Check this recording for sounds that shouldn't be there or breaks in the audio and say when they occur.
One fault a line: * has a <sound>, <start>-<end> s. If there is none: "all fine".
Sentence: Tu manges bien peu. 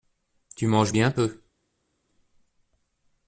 all fine